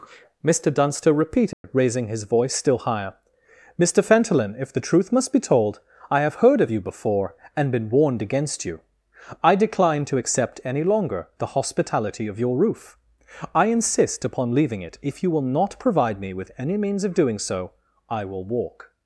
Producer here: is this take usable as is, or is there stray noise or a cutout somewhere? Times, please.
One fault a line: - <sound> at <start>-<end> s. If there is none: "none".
- dropout at 1.5-1.6 s